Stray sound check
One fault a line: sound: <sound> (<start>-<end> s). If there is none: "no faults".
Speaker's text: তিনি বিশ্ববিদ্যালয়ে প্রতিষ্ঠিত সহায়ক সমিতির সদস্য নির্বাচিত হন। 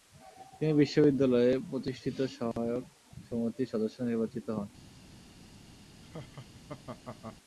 sound: dropout (2.5-2.6 s)
sound: laugh (6.0-7.4 s)